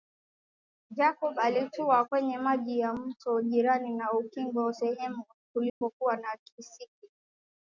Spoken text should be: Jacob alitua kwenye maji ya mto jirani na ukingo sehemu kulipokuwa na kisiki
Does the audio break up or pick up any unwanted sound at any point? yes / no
yes